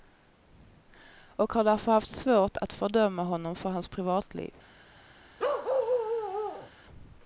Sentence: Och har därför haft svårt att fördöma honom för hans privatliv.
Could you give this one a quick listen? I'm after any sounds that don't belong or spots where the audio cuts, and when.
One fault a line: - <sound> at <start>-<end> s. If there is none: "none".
- bark at 5.4-6.7 s